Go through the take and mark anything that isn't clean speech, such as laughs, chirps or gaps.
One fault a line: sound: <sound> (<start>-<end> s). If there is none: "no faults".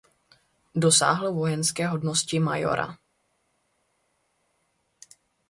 no faults